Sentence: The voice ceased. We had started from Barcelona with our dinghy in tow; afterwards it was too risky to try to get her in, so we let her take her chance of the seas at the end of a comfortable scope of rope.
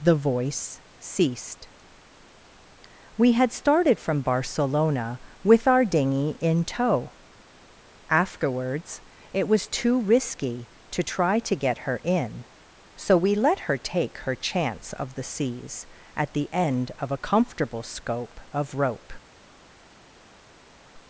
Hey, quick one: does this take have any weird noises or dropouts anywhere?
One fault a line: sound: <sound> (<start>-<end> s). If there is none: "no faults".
no faults